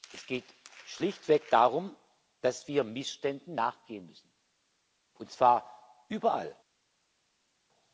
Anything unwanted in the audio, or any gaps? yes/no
no